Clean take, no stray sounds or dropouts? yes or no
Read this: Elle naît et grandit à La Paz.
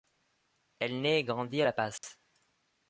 no